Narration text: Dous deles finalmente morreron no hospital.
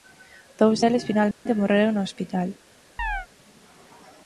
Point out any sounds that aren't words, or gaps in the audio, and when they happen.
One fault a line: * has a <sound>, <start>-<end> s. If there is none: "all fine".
* has a dropout, 1.3-1.5 s
* has a chirp, 3.0-3.3 s